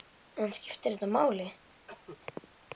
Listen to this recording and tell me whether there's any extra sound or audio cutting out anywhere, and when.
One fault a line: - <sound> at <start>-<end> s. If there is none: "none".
- cough at 1.9-2.2 s